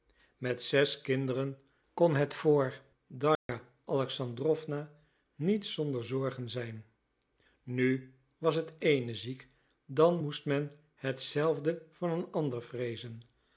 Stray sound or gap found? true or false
true